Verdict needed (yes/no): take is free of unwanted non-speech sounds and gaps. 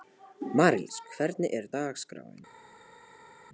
yes